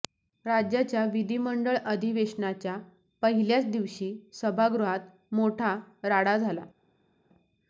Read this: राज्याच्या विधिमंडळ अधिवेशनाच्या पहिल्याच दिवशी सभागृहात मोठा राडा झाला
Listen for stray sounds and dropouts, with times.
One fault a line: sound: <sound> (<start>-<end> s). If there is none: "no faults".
no faults